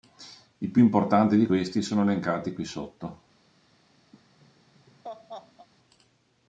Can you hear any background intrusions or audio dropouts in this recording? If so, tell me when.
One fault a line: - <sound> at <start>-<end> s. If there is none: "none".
- laugh at 4.1-5.7 s